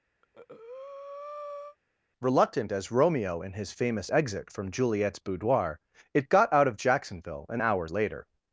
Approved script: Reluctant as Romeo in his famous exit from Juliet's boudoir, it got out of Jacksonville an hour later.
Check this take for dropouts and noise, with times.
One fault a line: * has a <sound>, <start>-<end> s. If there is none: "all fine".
* has a breath, 0.2-1.8 s